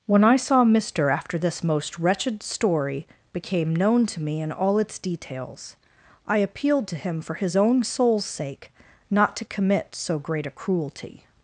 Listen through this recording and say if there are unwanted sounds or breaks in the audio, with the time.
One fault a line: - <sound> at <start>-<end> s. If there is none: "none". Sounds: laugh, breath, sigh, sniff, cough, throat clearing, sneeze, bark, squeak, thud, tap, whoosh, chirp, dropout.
none